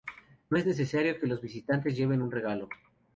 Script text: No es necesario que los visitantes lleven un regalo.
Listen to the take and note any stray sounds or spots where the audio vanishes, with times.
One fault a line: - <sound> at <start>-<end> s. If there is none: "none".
none